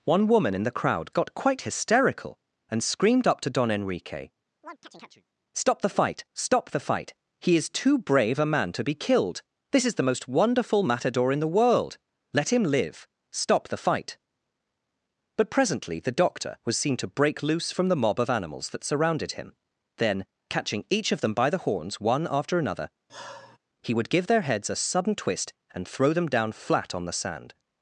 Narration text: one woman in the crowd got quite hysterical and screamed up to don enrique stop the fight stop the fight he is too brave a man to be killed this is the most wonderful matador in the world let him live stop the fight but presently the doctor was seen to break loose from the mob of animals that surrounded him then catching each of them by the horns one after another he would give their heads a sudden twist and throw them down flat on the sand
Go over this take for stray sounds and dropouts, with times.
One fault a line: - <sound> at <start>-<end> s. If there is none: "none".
- chirp at 4.6-5.3 s
- sigh at 23.1-23.6 s